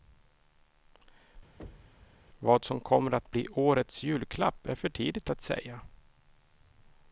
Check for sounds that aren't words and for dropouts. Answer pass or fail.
fail